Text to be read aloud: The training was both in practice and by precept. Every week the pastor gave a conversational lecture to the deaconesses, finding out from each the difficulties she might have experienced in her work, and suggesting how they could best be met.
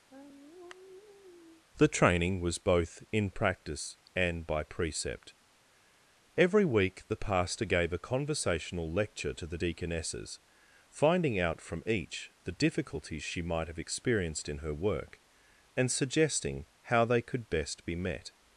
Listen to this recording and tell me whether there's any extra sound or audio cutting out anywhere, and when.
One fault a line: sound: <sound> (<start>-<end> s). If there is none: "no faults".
sound: sigh (0.1-1.6 s)